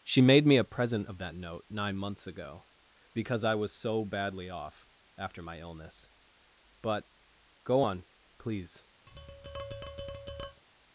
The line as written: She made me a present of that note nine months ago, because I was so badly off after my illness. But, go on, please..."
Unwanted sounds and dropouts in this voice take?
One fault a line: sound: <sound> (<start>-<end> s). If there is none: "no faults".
sound: tap (9.1-10.6 s)